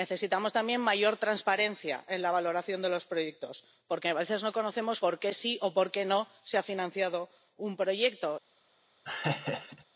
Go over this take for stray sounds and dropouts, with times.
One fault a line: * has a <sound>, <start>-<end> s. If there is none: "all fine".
* has a laugh, 9.1-9.9 s